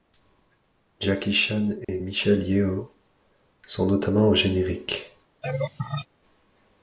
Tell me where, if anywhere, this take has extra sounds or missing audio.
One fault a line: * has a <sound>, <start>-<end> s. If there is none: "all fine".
* has a dropout, 1.8-1.9 s
* has a laugh, 5.4-6.1 s